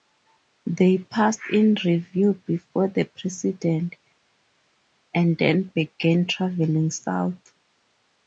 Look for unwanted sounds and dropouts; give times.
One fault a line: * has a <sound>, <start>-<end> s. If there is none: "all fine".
all fine